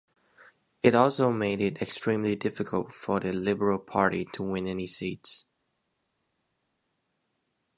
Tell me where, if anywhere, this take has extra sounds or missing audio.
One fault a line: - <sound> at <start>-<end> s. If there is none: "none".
none